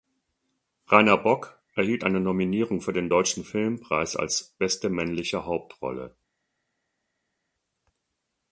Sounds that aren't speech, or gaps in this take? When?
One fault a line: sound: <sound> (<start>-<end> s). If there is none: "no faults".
no faults